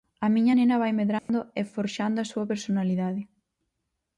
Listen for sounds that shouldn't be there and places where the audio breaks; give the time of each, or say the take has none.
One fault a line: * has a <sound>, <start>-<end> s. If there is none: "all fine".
* has a dropout, 1.2-1.3 s